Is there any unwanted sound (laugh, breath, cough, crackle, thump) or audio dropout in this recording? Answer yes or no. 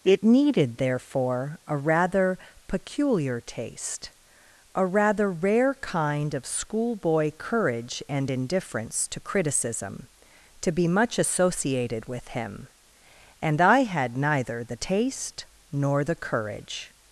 no